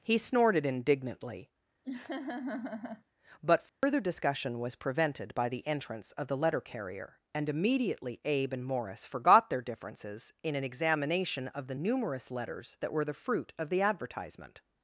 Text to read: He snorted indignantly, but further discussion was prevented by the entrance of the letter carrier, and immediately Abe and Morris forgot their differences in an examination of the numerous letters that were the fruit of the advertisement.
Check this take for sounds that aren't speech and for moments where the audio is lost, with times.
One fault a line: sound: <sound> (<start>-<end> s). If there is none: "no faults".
sound: laugh (1.8-3.0 s)
sound: dropout (3.7-3.8 s)